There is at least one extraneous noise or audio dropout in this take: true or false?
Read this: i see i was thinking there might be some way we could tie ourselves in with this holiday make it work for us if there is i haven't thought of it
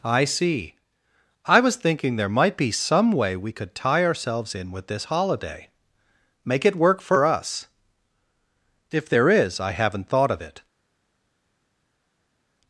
false